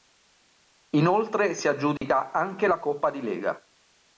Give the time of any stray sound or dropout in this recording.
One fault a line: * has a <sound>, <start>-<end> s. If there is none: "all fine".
* has a dropout, 2.0-2.0 s